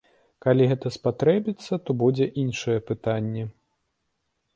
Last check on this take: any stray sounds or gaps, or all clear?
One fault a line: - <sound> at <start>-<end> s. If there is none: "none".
none